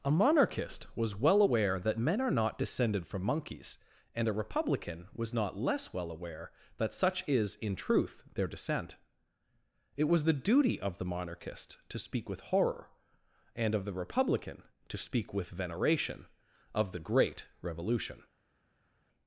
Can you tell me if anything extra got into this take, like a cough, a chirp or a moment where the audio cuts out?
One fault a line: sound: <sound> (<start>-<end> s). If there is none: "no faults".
no faults